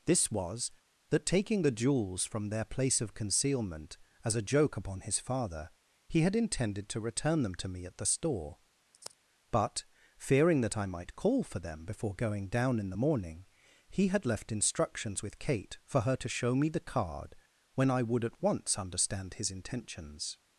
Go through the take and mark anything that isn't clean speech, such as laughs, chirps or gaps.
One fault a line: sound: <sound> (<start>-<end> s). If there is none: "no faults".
sound: sigh (8.9-9.2 s)